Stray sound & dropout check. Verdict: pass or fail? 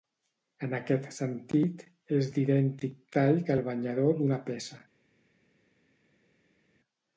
pass